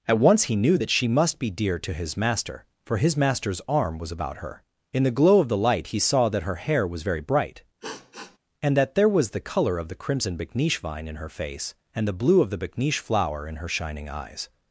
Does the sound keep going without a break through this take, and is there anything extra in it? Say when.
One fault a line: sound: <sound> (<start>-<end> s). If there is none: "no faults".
sound: sniff (7.8-8.4 s)